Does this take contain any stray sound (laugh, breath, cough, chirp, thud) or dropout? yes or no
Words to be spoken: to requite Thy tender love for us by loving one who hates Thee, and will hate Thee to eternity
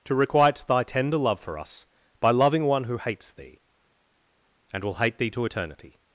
no